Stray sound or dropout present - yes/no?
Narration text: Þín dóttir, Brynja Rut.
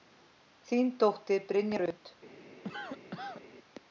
yes